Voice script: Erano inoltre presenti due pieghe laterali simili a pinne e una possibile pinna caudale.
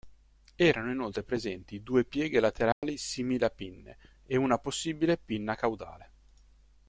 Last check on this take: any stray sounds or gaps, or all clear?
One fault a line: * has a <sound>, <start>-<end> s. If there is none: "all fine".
* has a dropout, 2.7-2.8 s